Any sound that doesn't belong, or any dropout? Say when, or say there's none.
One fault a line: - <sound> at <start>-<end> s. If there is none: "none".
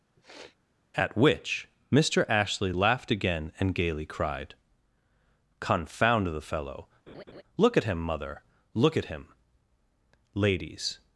- sniff at 0.2-0.6 s
- laugh at 7.1-7.4 s